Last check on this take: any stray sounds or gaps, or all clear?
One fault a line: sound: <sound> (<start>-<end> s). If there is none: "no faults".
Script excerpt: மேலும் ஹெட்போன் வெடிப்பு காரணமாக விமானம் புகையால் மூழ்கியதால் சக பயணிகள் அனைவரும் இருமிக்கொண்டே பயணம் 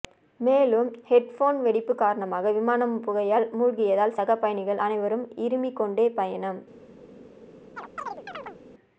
sound: chirp (7.8-8.6 s)